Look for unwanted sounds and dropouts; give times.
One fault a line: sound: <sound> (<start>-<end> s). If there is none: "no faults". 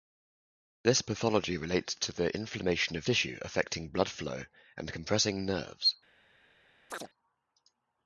sound: chirp (6.9-7.1 s)